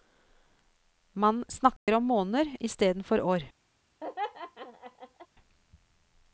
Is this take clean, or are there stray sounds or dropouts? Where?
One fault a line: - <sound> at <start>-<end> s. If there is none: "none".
- dropout at 1.8-1.9 s
- laugh at 4.0-5.3 s